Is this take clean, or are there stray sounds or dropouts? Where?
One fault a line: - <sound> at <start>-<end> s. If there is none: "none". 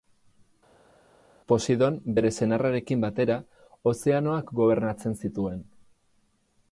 none